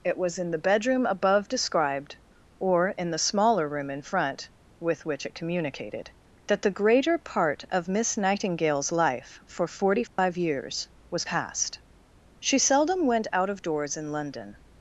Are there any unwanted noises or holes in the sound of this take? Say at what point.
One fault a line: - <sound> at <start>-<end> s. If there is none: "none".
- dropout at 10.1-10.2 s